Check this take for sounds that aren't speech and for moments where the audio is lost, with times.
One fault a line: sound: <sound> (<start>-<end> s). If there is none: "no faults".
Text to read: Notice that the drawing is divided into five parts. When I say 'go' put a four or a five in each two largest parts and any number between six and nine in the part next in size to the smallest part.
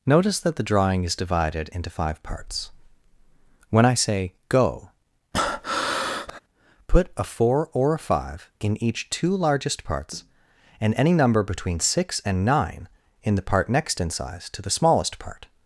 sound: breath (5.3-6.4 s)